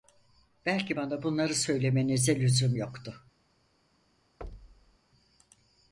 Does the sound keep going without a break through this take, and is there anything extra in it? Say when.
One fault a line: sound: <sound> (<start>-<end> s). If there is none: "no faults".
sound: thud (4.4-5.0 s)